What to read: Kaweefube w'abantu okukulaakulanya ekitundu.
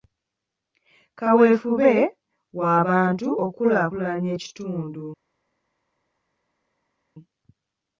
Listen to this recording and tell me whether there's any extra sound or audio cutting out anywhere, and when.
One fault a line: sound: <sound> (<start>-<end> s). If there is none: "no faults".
no faults